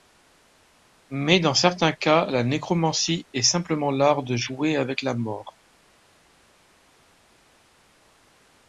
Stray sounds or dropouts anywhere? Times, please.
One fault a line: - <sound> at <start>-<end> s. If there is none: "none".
none